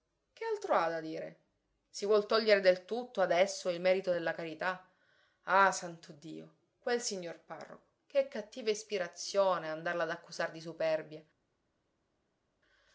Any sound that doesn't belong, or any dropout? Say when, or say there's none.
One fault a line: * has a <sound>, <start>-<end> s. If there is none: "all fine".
all fine